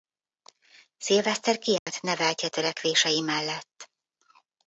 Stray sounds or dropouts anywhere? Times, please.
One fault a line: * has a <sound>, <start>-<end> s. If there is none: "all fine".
* has a dropout, 1.8-1.9 s